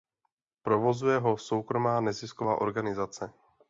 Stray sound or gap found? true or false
false